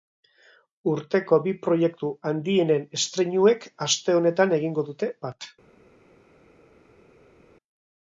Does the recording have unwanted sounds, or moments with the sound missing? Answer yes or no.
no